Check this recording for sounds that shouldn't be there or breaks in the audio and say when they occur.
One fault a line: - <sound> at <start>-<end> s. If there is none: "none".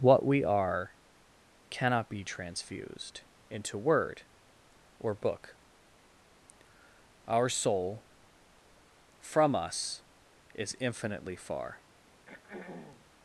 - throat clearing at 12.1-13.1 s